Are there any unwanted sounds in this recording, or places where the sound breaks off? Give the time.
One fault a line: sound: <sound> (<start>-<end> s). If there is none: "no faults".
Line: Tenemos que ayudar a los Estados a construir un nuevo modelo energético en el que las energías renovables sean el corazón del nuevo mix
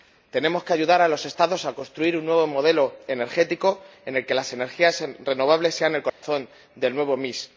sound: dropout (6.1-6.2 s)